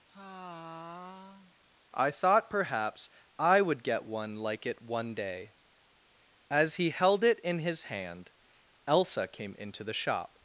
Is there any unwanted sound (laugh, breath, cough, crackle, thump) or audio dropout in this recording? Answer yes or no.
yes